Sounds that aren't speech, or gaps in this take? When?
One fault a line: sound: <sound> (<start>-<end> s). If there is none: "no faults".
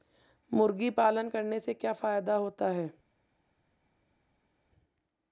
no faults